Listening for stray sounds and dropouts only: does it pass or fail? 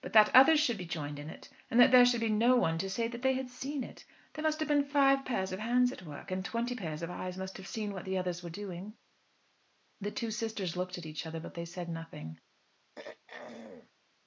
fail